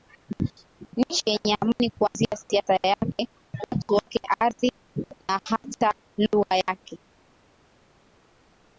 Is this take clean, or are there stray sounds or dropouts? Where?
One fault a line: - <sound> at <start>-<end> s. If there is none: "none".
none